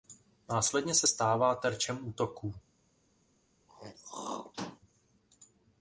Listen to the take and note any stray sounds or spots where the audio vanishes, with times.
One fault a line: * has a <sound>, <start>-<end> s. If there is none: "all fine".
* has a throat clearing, 3.7-4.8 s